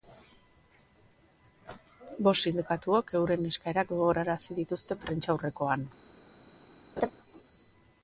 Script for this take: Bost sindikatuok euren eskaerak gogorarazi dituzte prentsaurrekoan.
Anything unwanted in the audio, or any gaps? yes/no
yes